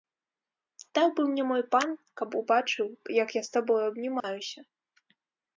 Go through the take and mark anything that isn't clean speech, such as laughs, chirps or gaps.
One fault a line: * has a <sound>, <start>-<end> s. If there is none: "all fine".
* has a dropout, 4.2-4.2 s